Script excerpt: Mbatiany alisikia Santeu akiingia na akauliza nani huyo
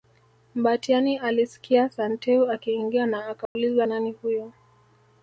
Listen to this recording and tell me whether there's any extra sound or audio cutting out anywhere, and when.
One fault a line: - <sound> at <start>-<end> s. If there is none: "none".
- dropout at 3.5-3.6 s